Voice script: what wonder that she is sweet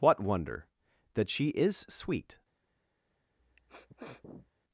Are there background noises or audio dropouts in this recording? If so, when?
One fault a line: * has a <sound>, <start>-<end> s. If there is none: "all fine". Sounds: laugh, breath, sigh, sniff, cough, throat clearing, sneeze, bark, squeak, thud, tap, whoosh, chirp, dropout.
* has a sniff, 3.4-4.5 s